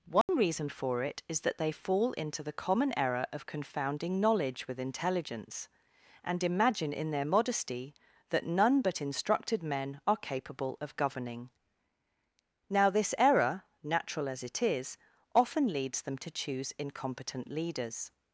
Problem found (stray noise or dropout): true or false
true